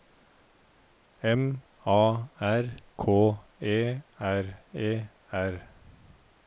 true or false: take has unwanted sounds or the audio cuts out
false